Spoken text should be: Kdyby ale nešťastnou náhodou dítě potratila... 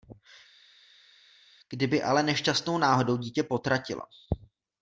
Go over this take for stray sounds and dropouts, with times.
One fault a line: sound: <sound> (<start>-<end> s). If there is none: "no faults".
no faults